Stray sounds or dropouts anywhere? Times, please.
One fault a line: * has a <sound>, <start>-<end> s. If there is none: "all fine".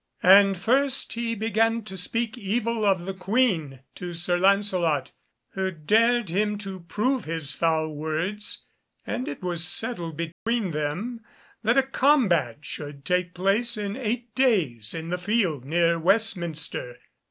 * has a dropout, 10.3-10.5 s